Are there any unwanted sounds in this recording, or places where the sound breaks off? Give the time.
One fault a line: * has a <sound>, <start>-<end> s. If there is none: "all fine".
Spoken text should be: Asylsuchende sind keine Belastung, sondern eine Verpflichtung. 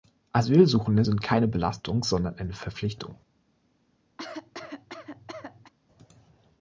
* has a cough, 4.2-5.7 s